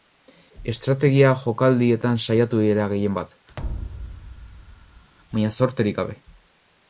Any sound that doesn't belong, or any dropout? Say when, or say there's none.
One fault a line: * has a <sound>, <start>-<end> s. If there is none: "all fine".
* has a thud, 3.6-5.1 s